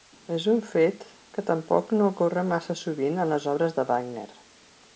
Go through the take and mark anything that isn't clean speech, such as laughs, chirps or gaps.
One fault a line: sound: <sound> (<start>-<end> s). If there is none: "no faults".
no faults